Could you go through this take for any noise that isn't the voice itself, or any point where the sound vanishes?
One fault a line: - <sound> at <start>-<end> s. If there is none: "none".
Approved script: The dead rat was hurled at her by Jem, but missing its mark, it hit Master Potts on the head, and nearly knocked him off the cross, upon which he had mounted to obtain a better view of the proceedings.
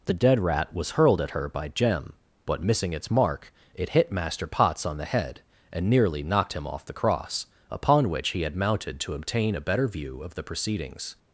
none